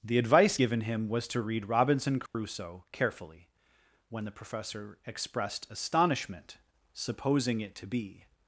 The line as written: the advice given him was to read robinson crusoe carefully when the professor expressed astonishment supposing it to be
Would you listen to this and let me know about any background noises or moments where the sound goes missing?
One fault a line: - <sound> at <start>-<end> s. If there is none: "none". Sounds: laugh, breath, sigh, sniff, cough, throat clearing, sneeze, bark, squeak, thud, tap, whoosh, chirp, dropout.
- dropout at 2.3-2.3 s